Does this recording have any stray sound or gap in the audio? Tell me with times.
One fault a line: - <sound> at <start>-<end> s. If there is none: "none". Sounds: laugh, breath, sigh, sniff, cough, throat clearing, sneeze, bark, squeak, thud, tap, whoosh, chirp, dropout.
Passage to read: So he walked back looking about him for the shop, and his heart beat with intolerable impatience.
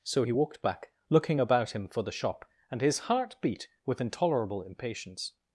none